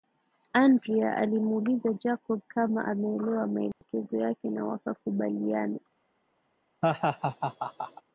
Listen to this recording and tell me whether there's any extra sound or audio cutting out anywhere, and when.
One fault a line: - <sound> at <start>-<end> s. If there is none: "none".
- dropout at 3.7-3.8 s
- laugh at 6.8-8.0 s